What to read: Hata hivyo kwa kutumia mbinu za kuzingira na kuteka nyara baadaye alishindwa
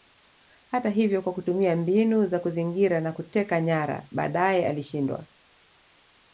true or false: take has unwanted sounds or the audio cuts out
false